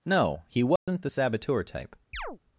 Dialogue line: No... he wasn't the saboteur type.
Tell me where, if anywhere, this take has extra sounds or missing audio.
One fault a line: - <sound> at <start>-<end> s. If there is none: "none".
- dropout at 0.8-0.9 s
- chirp at 2.1-2.4 s